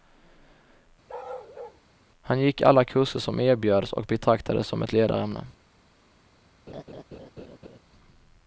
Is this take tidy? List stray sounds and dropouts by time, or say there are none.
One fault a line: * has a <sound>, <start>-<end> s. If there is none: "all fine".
* has a bark, 1.1-1.8 s
* has a laugh, 6.7-7.8 s